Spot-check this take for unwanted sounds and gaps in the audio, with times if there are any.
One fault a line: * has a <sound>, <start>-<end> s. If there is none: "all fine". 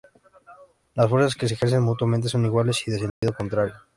* has a dropout, 3.1-3.2 s